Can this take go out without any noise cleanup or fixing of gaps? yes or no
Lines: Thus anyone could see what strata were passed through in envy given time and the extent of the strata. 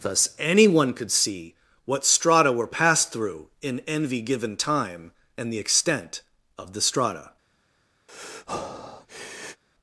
no